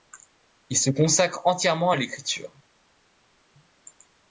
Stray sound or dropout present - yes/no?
no